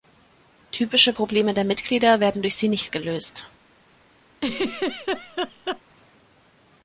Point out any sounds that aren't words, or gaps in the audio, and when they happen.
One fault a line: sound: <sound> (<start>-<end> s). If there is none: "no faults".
sound: laugh (4.4-5.8 s)